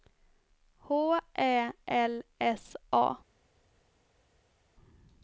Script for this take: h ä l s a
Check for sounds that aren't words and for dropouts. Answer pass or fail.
pass